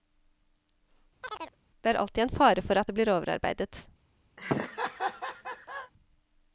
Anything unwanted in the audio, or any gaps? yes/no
yes